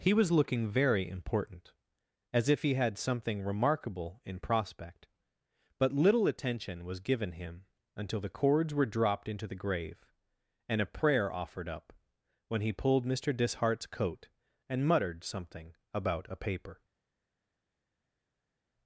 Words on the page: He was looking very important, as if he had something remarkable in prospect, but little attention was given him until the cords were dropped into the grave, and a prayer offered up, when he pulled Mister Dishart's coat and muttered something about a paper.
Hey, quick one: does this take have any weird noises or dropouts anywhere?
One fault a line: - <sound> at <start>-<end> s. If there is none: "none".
none